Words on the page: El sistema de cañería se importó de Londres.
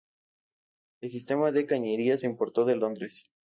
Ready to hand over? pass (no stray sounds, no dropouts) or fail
pass